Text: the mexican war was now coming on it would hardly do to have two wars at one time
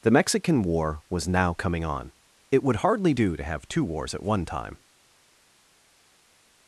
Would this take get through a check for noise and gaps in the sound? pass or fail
pass